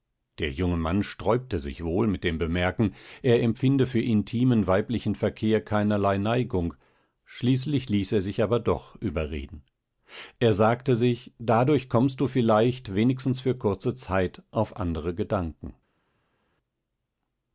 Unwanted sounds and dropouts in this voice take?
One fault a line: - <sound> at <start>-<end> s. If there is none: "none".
none